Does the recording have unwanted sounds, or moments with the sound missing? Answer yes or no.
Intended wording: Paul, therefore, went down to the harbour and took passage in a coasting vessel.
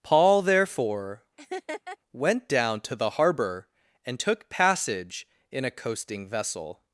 yes